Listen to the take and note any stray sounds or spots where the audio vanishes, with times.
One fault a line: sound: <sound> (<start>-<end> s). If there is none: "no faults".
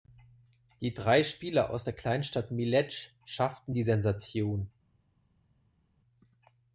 no faults